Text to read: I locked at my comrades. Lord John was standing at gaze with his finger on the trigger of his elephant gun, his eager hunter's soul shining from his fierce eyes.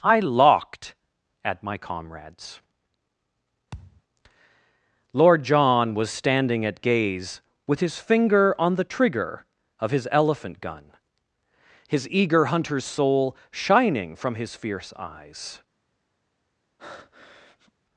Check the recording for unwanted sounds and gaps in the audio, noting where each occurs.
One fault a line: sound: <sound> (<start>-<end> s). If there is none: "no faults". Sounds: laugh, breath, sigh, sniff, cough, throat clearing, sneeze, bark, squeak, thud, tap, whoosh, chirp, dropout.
sound: thud (3.7-4.0 s)
sound: breath (16.8-17.7 s)